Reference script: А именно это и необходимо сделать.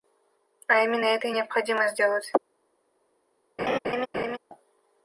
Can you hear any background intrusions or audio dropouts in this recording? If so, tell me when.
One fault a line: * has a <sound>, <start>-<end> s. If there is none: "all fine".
* has a laugh, 3.6-4.4 s